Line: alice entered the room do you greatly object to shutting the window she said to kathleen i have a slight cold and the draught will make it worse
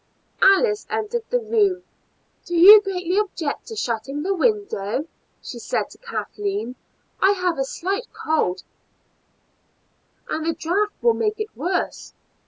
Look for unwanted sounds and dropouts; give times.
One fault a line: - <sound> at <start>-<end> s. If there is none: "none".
none